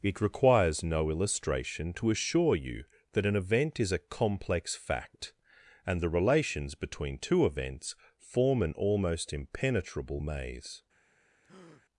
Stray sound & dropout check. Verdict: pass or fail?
fail